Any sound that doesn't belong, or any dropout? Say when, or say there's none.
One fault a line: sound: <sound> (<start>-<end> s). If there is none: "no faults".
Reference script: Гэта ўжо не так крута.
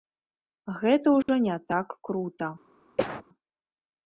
sound: dropout (1.2-1.3 s)
sound: cough (3.0-3.2 s)